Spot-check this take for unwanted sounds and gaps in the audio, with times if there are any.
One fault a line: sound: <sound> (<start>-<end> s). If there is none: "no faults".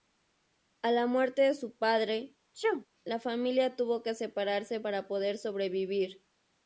sound: sneeze (2.5-2.9 s)